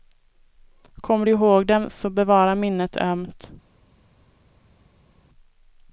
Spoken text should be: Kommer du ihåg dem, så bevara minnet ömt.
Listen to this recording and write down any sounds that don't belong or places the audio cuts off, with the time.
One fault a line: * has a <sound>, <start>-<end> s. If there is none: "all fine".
all fine